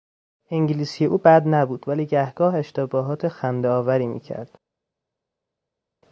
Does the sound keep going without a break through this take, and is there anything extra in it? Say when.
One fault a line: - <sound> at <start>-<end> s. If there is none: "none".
none